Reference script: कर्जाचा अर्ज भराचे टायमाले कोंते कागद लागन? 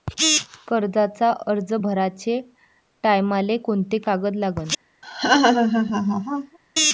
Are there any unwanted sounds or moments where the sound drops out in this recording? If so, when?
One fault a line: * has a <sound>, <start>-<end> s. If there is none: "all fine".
* has a laugh, 5.0-6.6 s